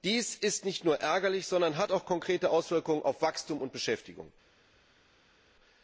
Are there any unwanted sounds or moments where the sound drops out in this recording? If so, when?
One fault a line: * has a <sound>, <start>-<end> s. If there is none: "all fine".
all fine